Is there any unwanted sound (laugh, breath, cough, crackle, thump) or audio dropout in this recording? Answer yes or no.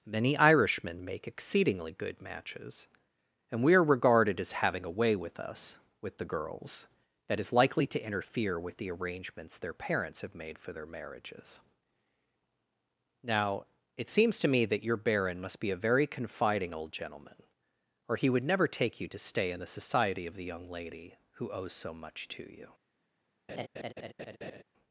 yes